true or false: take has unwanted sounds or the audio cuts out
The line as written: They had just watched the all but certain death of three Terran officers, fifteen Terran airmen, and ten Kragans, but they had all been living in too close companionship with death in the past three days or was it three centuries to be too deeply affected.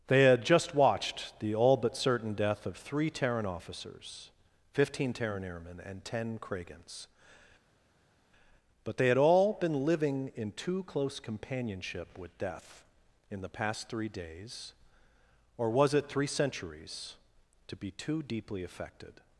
false